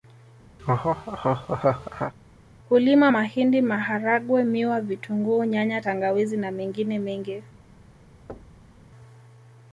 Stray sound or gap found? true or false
true